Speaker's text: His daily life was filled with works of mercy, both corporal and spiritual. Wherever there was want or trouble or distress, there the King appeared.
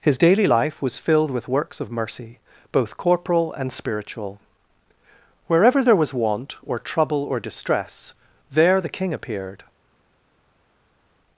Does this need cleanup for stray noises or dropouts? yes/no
no